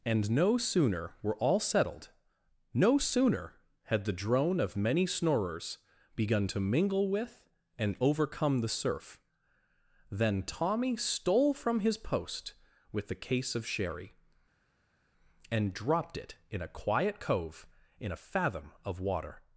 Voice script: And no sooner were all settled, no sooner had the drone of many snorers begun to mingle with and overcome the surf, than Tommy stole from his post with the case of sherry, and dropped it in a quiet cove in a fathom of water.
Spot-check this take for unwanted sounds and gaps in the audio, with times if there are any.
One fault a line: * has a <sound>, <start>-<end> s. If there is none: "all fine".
all fine